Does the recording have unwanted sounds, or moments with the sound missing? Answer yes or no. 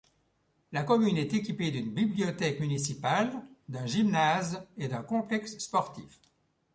no